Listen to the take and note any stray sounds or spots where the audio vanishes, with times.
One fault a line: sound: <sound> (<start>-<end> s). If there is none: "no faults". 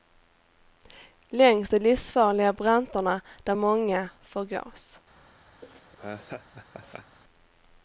sound: laugh (5.6-7.2 s)